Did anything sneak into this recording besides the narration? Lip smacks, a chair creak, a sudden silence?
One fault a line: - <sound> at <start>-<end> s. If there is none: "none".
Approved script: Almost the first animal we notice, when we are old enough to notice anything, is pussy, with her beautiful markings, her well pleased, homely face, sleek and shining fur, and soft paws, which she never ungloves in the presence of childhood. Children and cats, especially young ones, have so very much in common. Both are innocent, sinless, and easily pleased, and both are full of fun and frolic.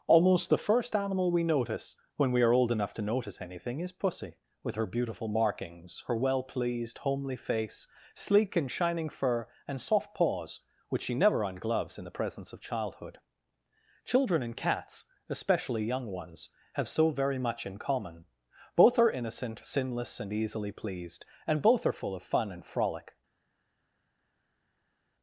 none